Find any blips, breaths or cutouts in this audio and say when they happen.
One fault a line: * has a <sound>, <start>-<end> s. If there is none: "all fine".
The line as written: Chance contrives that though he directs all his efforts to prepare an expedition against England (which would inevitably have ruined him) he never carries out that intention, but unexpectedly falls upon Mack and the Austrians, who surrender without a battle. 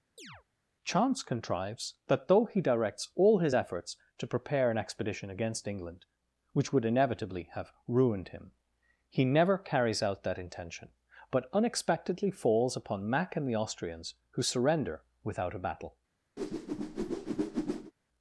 * has a chirp, 0.2-0.4 s
* has a whoosh, 16.4-17.9 s